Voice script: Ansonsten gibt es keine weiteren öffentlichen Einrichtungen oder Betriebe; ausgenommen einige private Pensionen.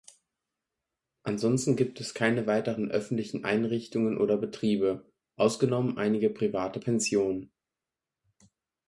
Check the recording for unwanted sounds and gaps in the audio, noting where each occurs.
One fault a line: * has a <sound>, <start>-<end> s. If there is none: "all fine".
all fine